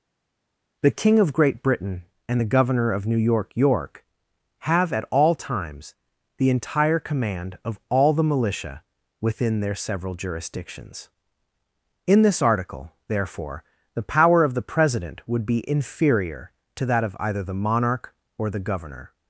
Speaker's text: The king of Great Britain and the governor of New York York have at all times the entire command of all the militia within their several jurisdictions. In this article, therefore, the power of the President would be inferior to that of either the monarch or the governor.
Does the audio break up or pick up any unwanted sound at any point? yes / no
no